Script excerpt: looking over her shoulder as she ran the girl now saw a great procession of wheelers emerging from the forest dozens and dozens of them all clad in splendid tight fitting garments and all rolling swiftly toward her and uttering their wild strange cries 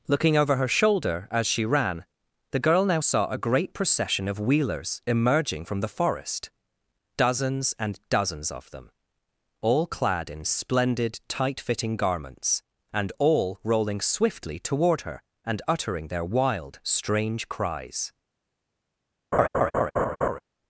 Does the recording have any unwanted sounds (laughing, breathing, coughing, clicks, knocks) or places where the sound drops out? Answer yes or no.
yes